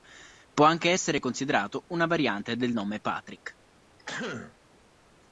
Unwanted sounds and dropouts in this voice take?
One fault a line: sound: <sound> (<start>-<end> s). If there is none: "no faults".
sound: throat clearing (4.0-4.5 s)